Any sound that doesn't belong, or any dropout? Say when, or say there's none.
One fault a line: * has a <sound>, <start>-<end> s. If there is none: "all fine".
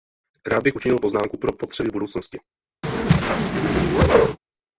* has a whoosh, 2.8-4.4 s